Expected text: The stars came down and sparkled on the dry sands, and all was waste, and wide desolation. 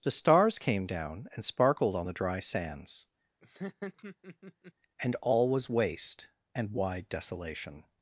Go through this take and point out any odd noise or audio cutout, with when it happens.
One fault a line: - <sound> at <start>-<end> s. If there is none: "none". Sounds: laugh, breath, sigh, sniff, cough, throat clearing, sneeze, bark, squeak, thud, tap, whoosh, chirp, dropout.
- laugh at 3.4-4.7 s